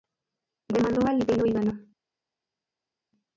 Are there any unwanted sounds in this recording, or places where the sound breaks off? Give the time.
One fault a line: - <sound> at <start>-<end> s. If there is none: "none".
none